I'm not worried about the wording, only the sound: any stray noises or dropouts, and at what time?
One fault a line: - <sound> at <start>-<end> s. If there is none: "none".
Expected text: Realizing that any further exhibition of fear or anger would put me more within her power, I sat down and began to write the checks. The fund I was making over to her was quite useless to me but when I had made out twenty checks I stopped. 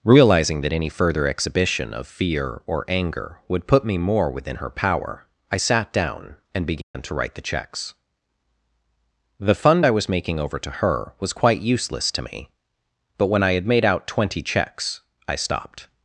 - dropout at 6.8-6.9 s